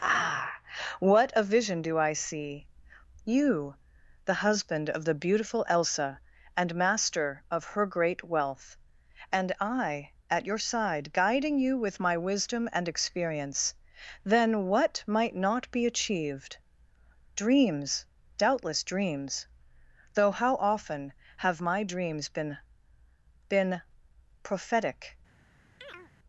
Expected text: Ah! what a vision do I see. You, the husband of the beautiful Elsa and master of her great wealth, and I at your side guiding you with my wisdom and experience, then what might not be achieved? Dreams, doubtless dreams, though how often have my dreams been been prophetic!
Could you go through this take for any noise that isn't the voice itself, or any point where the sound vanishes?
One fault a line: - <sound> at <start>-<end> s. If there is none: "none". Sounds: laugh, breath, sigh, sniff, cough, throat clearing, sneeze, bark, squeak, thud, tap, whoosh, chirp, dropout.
- chirp at 25.8-26.1 s